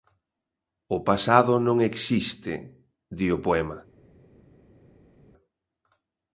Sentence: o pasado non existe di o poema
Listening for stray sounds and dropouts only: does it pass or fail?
pass